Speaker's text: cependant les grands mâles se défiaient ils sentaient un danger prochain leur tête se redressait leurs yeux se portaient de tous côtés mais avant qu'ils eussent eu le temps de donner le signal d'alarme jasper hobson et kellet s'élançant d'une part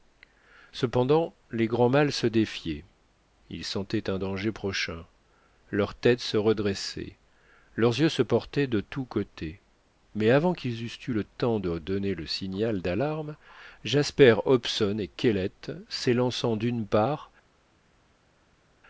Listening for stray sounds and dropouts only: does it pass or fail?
pass